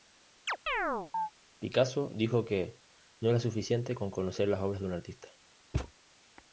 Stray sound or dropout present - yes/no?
yes